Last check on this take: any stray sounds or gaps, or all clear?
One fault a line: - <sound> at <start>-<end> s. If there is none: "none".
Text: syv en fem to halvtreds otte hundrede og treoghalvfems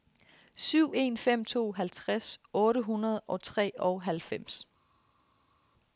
none